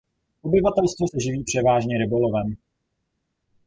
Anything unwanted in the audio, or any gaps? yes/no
no